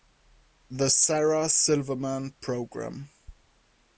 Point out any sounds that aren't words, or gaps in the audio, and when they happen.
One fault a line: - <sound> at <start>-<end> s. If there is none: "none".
none